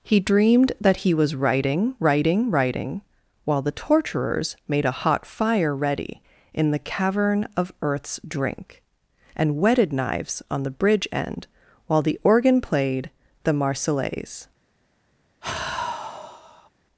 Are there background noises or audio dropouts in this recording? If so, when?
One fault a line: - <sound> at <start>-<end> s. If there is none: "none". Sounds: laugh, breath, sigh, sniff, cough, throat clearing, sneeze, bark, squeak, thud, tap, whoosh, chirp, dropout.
- sigh at 15.4-16.7 s